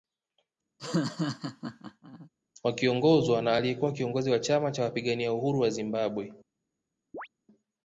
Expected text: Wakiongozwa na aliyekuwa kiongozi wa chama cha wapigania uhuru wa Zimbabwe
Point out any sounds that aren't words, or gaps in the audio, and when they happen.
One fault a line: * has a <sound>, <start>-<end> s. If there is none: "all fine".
* has a laugh, 0.8-2.3 s
* has a chirp, 7.1-7.3 s